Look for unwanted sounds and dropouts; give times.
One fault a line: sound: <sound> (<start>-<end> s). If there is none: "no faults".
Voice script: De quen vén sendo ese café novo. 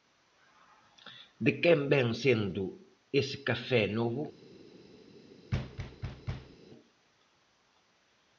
sound: thud (5.5-6.6 s)